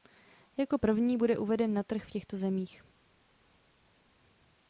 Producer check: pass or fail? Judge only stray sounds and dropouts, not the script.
pass